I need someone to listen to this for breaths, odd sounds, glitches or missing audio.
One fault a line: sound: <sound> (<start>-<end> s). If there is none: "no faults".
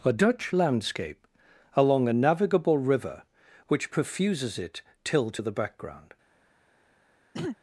sound: throat clearing (7.3-7.6 s)